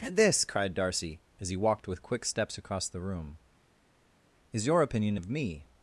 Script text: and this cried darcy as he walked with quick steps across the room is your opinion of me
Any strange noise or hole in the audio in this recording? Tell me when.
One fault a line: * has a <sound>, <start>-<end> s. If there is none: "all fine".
all fine